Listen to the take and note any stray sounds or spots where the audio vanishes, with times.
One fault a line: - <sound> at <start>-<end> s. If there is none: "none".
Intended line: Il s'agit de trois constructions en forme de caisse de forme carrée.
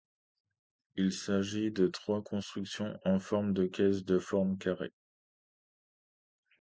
none